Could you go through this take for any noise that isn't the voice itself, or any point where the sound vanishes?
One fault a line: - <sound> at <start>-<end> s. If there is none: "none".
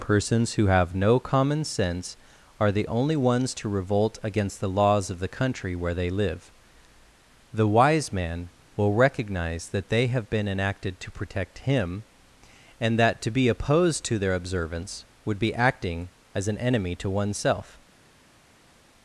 none